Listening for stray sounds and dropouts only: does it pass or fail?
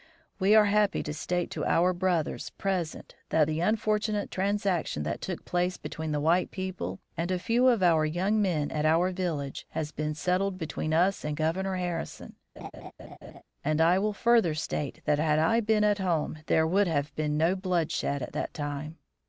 fail